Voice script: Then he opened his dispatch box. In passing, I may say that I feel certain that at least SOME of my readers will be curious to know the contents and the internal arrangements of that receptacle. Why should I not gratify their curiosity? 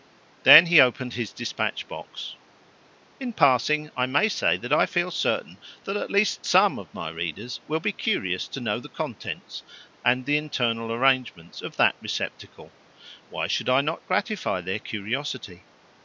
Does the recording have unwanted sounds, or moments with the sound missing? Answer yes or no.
no